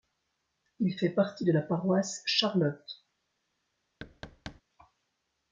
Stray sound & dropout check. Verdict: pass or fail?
fail